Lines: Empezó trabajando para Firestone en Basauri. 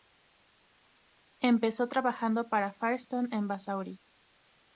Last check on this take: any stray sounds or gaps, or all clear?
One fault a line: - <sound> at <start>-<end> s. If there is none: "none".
none